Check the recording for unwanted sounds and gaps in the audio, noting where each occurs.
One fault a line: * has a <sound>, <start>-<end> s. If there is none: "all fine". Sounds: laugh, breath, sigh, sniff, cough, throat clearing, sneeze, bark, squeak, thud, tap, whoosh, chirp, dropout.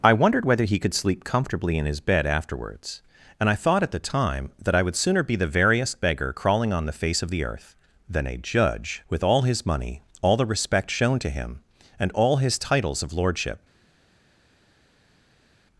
all fine